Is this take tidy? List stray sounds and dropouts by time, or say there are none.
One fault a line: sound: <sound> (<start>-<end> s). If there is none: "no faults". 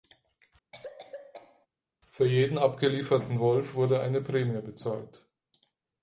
sound: cough (0.7-1.7 s)